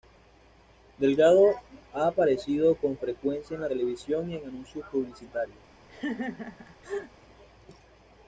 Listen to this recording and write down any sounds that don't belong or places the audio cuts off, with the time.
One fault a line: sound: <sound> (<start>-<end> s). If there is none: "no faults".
sound: laugh (5.9-7.1 s)